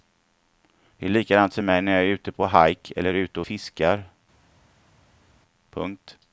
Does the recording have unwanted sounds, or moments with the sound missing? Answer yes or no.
no